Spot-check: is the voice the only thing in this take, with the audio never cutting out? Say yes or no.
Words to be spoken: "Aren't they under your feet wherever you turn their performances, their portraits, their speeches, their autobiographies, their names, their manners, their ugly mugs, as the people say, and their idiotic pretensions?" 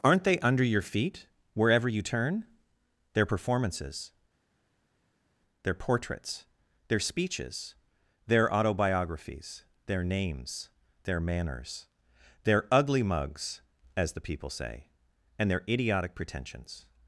yes